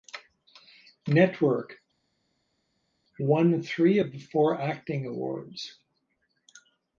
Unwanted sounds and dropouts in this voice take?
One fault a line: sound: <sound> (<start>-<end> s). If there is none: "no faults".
no faults